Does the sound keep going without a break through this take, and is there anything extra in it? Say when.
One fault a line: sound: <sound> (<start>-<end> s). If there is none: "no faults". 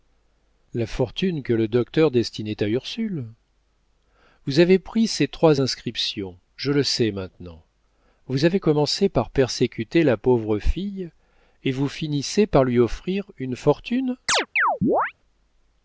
sound: chirp (14.3-15.1 s)